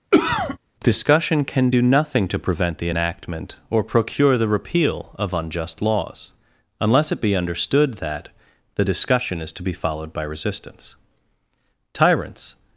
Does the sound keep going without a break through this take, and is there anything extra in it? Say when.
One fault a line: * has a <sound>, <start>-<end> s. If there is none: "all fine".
* has a cough, 0.1-0.6 s